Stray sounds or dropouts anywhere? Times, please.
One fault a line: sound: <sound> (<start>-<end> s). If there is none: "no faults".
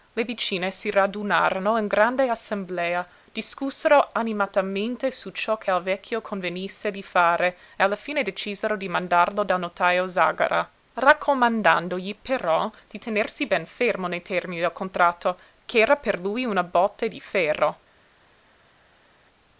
no faults